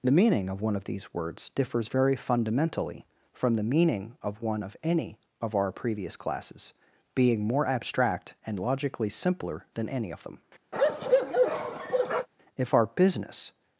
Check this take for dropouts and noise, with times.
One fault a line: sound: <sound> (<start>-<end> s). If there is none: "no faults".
sound: bark (10.7-12.3 s)